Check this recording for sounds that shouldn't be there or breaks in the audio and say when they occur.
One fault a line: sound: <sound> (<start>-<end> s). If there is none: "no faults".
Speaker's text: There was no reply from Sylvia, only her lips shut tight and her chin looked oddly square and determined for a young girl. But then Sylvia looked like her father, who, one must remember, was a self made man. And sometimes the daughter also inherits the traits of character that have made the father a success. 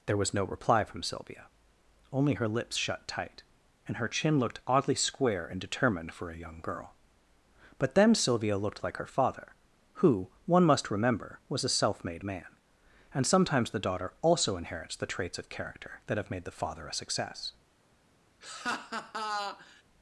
sound: laugh (18.4-19.8 s)